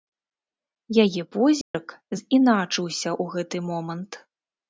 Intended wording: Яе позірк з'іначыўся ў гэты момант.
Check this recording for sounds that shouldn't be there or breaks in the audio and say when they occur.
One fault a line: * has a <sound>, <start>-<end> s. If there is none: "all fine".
* has a dropout, 1.6-1.7 s